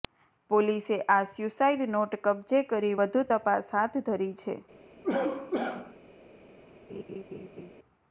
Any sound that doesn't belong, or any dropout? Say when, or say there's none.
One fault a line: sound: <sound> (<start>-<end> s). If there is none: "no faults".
sound: cough (5.0-6.0 s)
sound: laugh (6.9-7.7 s)